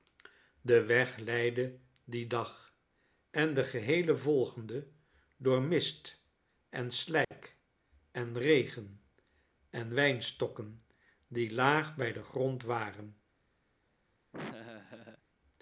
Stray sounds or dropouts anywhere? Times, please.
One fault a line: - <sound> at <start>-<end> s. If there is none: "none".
- dropout at 7.2-7.3 s
- laugh at 14.3-15.2 s